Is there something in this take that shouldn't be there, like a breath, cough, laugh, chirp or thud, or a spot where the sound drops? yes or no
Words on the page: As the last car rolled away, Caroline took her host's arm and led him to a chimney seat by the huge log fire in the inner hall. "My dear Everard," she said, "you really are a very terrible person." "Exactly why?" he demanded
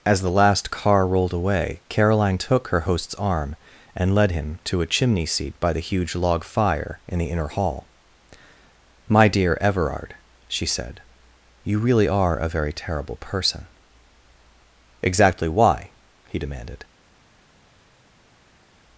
no